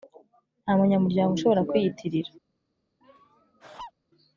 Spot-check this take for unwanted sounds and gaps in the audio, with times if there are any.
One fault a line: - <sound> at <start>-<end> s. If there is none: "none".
- laugh at 3.0-3.9 s